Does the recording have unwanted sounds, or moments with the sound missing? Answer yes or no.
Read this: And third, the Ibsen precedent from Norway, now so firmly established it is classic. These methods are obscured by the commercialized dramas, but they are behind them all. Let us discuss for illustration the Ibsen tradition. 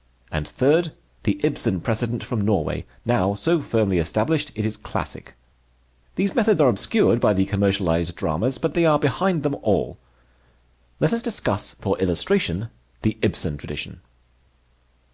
no